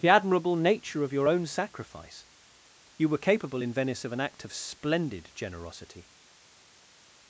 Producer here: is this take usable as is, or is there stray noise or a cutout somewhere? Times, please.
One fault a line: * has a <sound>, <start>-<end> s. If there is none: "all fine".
all fine